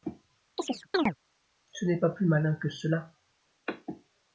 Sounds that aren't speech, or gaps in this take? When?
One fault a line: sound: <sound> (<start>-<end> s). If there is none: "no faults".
sound: chirp (0.6-1.2 s)